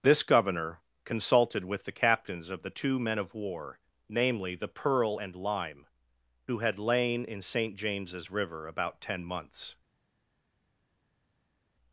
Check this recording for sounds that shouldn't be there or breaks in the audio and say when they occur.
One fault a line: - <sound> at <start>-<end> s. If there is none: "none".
none